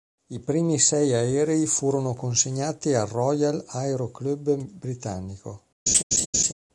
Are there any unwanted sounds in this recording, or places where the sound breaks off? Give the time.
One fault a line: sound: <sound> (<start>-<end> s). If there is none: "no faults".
sound: laugh (5.9-6.5 s)